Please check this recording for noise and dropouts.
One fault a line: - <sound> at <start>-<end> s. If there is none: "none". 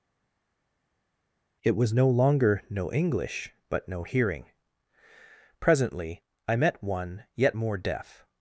none